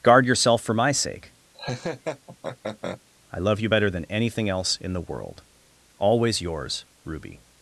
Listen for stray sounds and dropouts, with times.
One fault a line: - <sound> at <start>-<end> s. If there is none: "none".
- laugh at 1.5-3.0 s